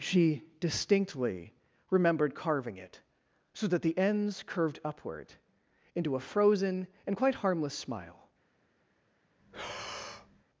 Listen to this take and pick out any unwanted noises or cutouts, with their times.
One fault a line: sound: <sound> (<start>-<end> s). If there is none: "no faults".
sound: breath (9.4-10.4 s)